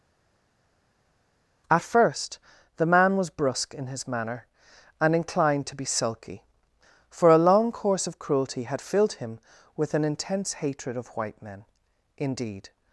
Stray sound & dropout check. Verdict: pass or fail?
pass